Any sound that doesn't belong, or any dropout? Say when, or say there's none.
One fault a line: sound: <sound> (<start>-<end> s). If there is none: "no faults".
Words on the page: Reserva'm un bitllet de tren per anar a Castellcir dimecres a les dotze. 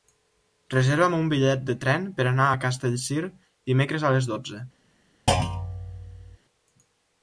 sound: thud (5.3-6.4 s)